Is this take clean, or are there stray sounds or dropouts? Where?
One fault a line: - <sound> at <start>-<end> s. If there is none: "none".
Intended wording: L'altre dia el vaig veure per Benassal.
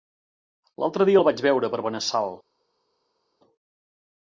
none